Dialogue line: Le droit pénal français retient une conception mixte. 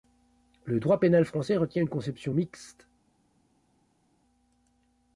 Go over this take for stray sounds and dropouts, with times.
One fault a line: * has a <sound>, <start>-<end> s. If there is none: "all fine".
all fine